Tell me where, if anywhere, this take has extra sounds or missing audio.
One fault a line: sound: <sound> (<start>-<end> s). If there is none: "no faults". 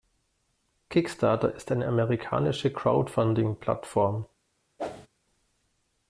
sound: whoosh (4.8-5.1 s)